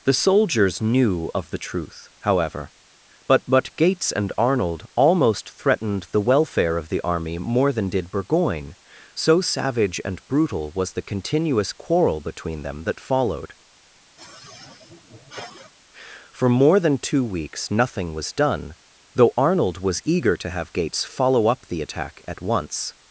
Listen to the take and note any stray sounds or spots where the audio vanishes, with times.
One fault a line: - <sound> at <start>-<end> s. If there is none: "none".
- sigh at 14.2-15.7 s